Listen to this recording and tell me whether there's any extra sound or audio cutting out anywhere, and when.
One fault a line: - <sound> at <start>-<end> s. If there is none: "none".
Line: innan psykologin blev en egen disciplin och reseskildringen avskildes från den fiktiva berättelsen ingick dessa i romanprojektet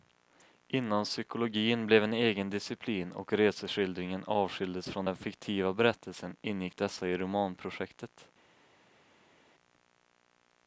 none